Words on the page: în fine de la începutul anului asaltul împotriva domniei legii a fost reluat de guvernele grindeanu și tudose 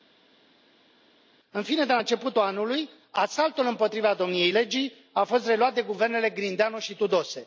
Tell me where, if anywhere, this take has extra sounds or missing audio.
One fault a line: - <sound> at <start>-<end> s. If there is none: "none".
none